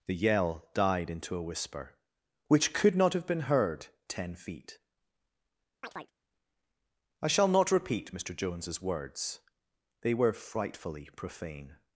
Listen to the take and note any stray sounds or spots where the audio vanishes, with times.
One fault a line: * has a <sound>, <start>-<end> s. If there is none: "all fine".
* has a chirp, 5.8-6.1 s